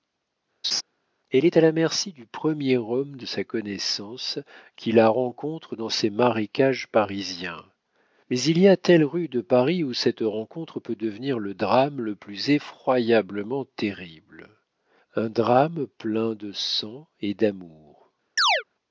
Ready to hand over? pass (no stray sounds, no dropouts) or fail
fail